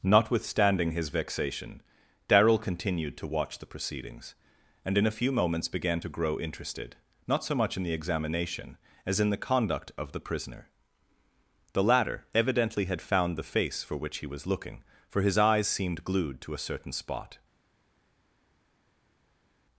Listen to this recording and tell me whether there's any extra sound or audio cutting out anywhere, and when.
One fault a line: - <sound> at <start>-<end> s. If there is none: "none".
none